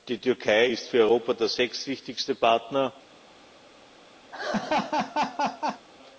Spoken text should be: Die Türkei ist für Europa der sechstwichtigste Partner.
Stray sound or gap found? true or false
true